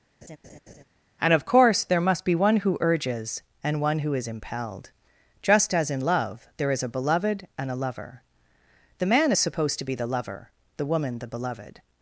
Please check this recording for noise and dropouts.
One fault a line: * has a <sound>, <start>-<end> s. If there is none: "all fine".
* has a laugh, 0.2-0.8 s